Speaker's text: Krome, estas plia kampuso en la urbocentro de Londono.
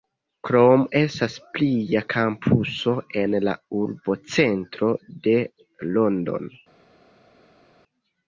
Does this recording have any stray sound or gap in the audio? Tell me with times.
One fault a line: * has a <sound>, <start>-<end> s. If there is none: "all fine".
all fine